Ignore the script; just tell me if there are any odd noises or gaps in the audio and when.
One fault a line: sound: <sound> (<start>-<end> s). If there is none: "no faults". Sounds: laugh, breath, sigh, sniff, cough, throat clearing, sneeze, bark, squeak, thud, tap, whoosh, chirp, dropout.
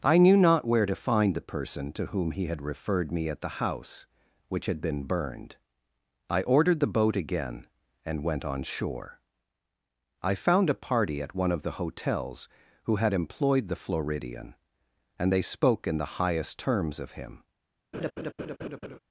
sound: laugh (17.9-19.0 s)